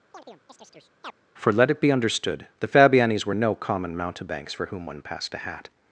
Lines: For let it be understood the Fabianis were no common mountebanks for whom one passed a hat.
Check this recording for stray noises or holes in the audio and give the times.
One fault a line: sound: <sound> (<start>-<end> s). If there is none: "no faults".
sound: chirp (0.1-1.1 s)